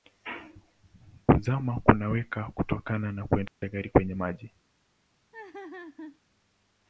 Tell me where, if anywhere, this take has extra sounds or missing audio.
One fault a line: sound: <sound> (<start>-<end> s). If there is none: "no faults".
sound: dropout (3.5-3.6 s)
sound: laugh (5.3-6.2 s)